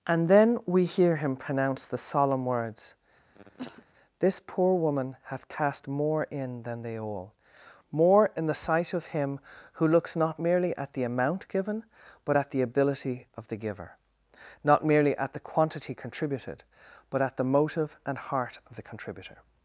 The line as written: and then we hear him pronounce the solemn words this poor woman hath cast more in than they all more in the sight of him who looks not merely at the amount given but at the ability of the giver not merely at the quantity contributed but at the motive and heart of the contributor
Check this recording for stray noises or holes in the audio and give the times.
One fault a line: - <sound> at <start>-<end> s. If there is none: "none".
- cough at 3.3-3.9 s